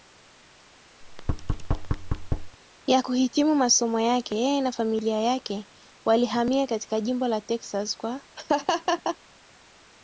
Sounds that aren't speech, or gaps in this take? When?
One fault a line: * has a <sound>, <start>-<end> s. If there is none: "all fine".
* has a thud, 1.0-2.6 s
* has a laugh, 8.4-9.2 s